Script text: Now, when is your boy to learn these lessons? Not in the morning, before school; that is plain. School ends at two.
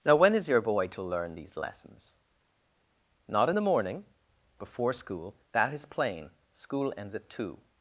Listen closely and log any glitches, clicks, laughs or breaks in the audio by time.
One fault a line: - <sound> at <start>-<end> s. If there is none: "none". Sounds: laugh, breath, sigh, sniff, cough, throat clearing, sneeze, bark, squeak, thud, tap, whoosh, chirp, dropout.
none